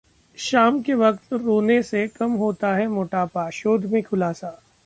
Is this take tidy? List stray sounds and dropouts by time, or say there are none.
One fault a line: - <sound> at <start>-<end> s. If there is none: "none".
none